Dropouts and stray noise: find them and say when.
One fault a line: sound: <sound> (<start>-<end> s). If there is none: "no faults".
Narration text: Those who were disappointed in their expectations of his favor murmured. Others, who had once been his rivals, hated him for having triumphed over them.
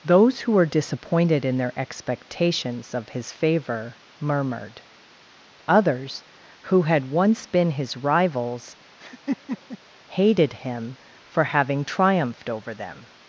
sound: laugh (9.0-9.8 s)